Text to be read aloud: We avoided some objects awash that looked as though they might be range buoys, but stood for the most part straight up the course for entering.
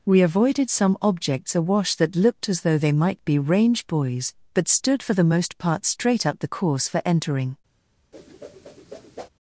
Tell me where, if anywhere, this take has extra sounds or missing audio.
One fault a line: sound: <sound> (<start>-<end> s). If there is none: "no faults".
sound: whoosh (8.1-9.3 s)